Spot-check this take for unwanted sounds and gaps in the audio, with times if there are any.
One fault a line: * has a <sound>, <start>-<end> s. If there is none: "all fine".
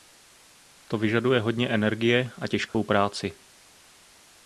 * has a dropout, 2.7-2.7 s